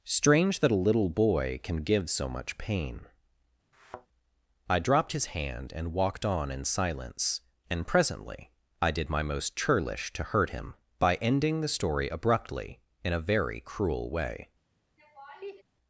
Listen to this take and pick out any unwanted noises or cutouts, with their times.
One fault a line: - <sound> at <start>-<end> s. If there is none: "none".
- thud at 3.7-4.1 s
- laugh at 15.0-15.6 s